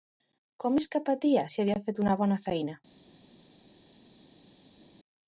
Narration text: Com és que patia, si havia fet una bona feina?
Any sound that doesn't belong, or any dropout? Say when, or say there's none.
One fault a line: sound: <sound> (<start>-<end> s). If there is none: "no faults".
no faults